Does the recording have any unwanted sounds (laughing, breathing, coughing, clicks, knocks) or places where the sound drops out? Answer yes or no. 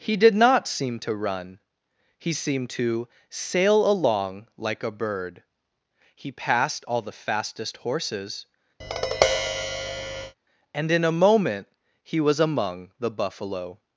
yes